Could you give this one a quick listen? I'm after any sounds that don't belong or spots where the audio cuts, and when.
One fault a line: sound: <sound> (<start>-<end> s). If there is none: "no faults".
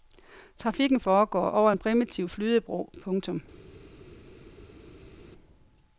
no faults